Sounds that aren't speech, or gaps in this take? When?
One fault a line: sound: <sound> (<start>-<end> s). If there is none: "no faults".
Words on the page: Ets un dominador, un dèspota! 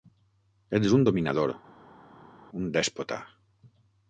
no faults